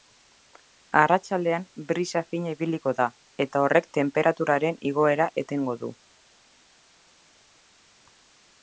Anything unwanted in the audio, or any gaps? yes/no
no